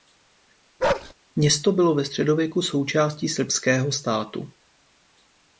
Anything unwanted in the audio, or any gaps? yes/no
yes